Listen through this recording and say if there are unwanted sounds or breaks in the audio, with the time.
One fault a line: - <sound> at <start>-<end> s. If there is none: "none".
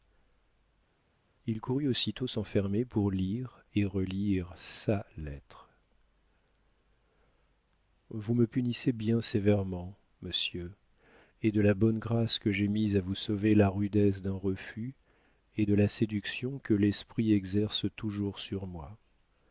none